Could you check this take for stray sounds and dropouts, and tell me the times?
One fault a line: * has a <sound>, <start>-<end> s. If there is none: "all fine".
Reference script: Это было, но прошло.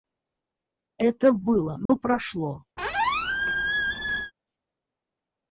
* has a dropout, 1.9-1.9 s
* has a squeak, 2.8-4.3 s